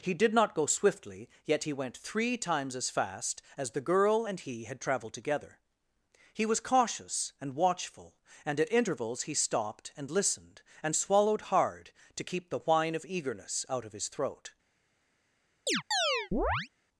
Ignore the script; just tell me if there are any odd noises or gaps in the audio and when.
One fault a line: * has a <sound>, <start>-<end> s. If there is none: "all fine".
* has a chirp, 15.7-16.7 s